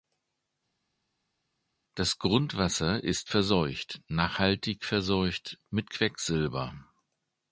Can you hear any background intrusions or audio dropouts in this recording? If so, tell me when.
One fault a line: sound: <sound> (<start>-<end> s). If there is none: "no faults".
no faults